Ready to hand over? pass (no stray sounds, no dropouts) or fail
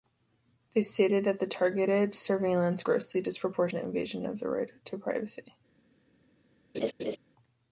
fail